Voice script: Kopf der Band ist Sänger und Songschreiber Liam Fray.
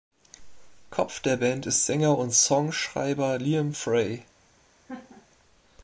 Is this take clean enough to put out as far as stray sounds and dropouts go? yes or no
no